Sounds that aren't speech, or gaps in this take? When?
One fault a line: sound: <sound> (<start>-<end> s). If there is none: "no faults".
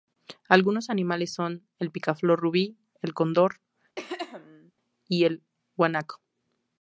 sound: throat clearing (4.0-4.7 s)